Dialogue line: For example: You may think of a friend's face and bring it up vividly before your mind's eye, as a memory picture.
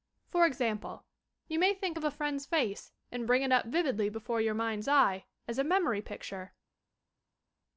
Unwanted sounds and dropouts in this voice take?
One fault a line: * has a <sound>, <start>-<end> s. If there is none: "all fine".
all fine